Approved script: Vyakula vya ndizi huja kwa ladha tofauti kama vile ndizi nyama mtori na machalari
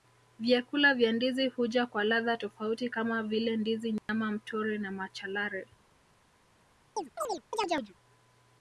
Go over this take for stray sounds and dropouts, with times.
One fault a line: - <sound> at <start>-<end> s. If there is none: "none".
- dropout at 4.0-4.1 s
- chirp at 7.0-7.9 s